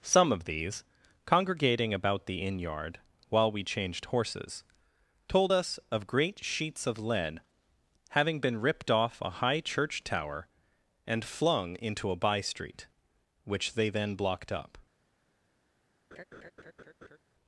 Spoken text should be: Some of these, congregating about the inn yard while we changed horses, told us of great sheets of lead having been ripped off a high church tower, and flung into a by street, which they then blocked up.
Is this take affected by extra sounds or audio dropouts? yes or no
yes